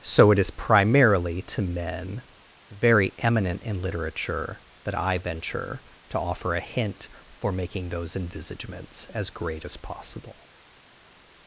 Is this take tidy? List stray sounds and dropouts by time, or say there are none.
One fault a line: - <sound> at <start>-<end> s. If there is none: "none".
none